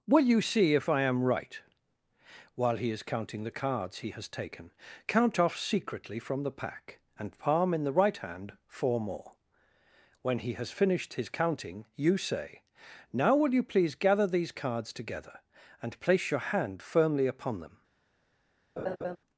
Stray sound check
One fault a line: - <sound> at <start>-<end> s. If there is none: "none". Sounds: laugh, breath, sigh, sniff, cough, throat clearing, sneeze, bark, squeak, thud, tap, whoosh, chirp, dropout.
- laugh at 18.8-19.2 s